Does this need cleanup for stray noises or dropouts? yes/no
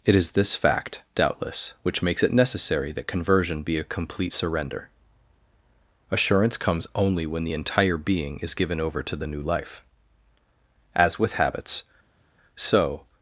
no